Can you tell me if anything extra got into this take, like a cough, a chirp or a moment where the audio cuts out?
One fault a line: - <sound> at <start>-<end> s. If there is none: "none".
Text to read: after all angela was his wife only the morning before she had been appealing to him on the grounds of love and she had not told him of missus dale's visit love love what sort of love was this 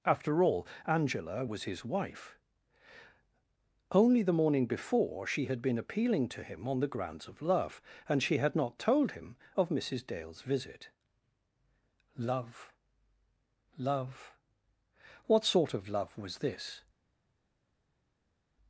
none